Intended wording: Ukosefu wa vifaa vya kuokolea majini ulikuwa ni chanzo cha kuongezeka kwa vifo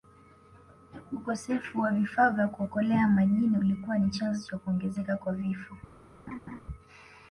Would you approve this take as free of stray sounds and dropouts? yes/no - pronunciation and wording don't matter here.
no